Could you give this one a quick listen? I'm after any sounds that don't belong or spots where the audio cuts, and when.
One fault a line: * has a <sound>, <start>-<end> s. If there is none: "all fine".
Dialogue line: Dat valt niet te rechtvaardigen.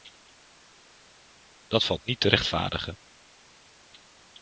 all fine